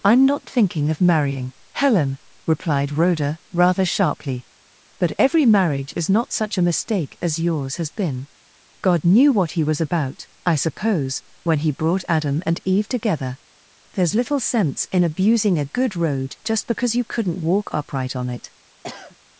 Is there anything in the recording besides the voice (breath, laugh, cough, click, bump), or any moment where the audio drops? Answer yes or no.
yes